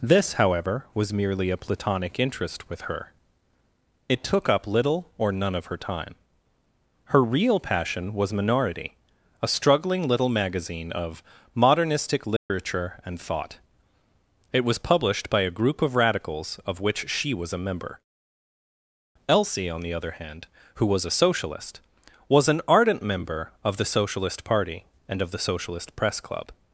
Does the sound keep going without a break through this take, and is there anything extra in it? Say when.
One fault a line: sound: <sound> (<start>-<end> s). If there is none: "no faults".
sound: dropout (12.4-12.5 s)